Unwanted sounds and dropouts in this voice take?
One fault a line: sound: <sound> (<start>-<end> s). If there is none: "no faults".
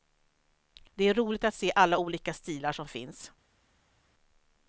no faults